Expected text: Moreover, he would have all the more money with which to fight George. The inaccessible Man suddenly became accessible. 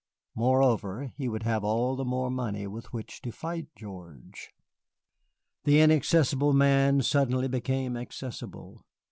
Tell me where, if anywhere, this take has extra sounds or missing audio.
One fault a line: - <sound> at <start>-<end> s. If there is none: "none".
none